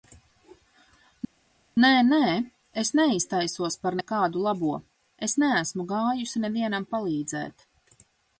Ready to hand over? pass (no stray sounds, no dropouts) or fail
pass